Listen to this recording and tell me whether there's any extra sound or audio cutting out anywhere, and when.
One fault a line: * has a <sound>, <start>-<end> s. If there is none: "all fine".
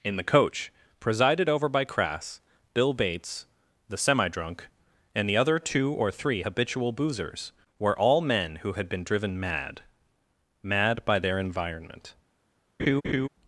* has a laugh, 12.8-13.3 s